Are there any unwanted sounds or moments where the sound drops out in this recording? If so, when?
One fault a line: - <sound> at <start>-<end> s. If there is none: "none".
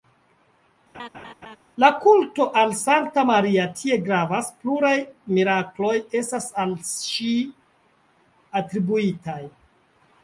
- laugh at 0.9-1.6 s